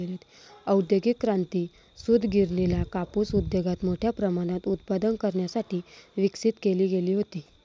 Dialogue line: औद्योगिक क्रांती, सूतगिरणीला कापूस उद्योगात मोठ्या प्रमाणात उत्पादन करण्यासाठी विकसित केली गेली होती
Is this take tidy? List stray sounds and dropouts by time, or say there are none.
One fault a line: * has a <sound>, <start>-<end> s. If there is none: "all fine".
all fine